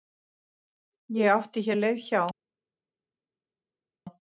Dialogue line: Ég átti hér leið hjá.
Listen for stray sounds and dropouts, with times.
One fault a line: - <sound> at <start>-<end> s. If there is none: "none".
none